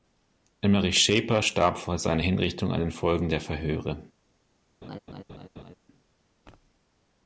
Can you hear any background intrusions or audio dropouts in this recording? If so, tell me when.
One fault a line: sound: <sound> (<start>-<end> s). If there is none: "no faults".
sound: laugh (4.8-5.8 s)